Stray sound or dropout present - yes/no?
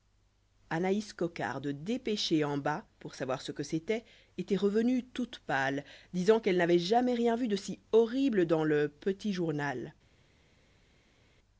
no